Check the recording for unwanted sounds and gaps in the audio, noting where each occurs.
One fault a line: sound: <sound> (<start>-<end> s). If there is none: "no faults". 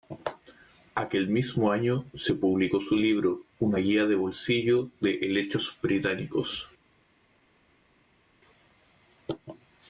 no faults